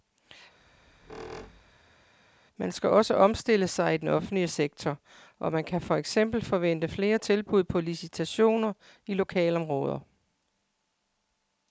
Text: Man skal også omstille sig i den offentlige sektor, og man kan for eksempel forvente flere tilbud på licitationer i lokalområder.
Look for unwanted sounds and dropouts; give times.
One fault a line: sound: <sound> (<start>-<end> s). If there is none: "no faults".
sound: squeak (0.6-2.1 s)